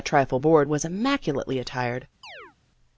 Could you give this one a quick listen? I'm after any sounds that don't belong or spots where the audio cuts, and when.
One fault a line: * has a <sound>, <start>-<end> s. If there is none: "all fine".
* has a chirp, 2.2-2.6 s